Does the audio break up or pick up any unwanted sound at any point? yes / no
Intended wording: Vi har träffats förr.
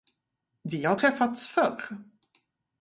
no